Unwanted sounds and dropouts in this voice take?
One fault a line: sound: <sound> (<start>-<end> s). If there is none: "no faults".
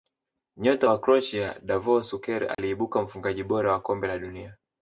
sound: dropout (2.5-2.6 s)